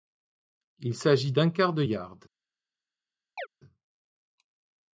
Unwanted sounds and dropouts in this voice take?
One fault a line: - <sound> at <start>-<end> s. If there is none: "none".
- chirp at 3.4-3.5 s